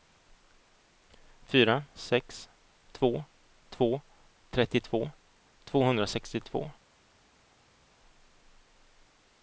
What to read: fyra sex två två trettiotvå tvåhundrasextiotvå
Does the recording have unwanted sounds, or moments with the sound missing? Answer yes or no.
no